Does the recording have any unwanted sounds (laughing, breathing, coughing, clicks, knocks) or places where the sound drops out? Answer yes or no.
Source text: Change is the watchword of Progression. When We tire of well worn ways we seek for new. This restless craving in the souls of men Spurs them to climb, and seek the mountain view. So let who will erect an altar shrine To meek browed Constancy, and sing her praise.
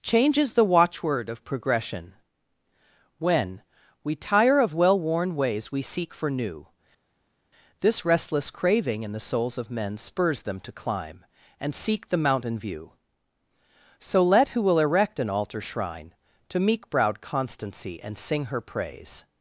no